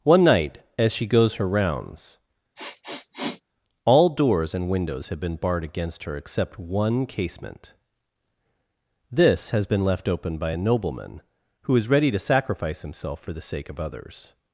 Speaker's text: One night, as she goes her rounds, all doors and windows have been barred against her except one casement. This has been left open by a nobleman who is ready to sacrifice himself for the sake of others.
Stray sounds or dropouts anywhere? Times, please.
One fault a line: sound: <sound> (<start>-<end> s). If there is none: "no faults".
sound: sniff (2.5-3.4 s)